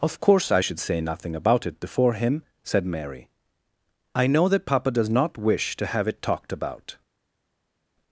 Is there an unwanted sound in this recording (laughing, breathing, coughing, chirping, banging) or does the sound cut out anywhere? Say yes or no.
no